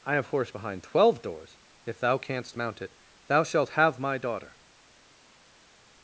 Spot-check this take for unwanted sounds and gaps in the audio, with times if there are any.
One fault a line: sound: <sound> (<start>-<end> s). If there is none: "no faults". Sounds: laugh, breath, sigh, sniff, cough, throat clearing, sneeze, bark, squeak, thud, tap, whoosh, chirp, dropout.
no faults